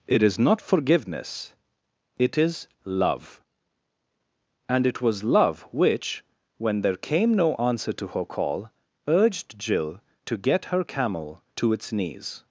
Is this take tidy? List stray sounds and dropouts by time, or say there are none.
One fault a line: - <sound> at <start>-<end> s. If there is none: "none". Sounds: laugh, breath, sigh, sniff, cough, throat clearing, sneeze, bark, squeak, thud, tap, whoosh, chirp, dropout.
none